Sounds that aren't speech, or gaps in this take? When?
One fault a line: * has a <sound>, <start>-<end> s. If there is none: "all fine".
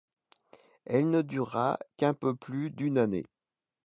all fine